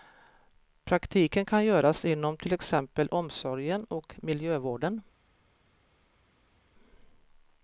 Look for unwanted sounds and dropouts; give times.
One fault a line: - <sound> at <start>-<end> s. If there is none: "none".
none